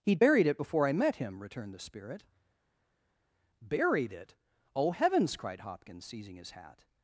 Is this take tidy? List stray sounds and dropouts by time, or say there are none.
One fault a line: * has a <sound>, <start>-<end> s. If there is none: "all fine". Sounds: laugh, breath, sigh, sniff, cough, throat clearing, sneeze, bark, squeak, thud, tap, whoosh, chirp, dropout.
all fine